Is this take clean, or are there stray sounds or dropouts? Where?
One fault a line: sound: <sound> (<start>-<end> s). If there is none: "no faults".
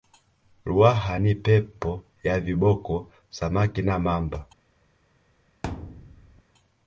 sound: thud (5.6-6.4 s)